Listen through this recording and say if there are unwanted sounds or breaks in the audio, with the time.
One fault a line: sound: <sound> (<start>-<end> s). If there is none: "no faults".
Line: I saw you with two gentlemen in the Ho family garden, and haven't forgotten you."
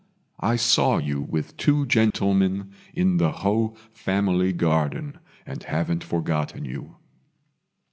sound: dropout (2.1-2.1 s)